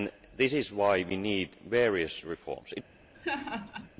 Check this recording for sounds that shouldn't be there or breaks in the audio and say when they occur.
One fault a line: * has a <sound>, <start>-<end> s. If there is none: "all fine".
* has a laugh, 3.1-3.9 s